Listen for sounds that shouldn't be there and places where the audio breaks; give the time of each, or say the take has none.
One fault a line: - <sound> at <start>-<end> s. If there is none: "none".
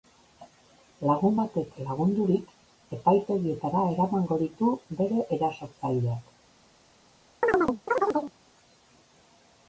- chirp at 7.4-8.3 s